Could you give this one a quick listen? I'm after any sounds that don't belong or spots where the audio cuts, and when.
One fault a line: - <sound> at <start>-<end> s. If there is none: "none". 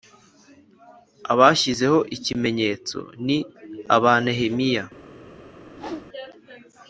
- whoosh at 5.7-6.1 s